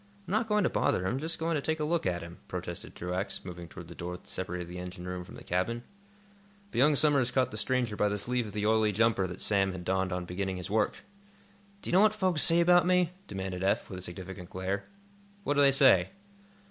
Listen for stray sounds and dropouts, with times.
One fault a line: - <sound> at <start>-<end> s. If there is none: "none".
none